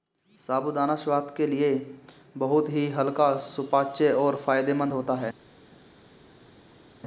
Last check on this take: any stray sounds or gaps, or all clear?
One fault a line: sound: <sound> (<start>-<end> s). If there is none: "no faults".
no faults